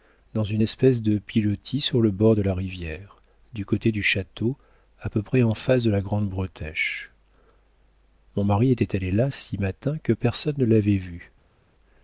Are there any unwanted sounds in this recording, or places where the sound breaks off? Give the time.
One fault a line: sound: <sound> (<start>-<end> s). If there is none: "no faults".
no faults